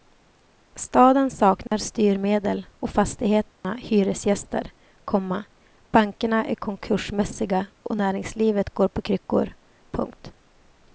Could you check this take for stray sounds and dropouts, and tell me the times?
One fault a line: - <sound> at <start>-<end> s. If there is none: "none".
- dropout at 1.7-1.7 s
- dropout at 3.5-3.6 s